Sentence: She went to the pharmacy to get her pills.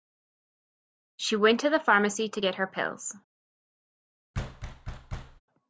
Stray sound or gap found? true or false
true